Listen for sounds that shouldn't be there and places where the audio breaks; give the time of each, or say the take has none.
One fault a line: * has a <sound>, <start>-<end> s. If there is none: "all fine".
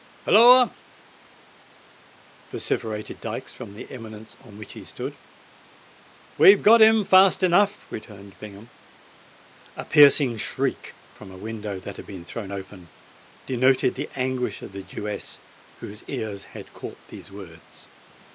all fine